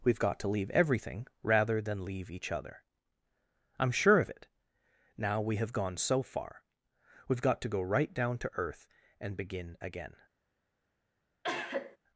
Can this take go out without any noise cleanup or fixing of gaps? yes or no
no